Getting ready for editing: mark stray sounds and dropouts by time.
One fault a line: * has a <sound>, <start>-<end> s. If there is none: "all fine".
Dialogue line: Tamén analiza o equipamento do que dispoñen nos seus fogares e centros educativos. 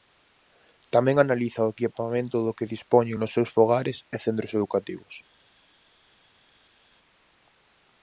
all fine